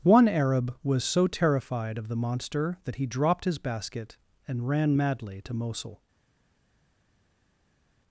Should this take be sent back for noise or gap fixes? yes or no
no